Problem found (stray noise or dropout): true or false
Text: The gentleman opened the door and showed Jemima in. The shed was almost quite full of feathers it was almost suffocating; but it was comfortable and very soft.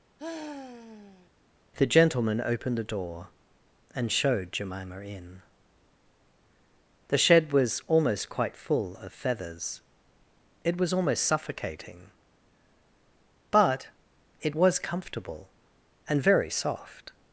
true